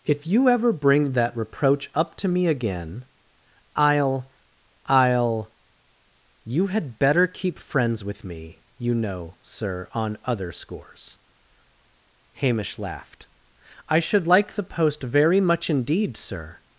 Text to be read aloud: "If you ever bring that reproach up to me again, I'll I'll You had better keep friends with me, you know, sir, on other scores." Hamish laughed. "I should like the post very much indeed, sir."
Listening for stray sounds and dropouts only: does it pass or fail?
pass